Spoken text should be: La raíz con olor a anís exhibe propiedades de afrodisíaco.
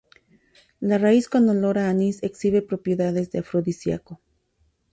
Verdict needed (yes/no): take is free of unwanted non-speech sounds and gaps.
yes